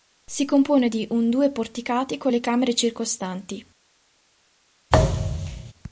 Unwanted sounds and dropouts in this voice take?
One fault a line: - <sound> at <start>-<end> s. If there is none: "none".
- thud at 4.9-5.7 s